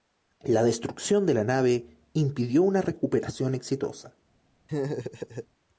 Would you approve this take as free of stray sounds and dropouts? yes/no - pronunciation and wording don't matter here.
no